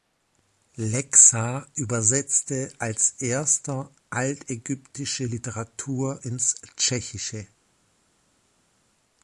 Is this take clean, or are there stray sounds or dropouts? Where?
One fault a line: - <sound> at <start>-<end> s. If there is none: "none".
none